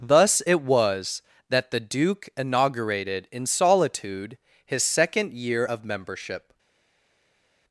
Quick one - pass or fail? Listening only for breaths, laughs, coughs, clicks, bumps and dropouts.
pass